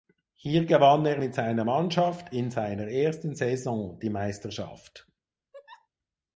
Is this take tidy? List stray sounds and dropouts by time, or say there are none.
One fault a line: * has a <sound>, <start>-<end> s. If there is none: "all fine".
* has a laugh, 5.5-5.9 s